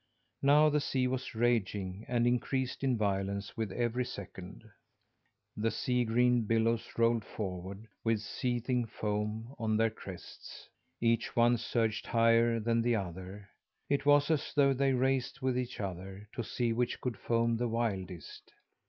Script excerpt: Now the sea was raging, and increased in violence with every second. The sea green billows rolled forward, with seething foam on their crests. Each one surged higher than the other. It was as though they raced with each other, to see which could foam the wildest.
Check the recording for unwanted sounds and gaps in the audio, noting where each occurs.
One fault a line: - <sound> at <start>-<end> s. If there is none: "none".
none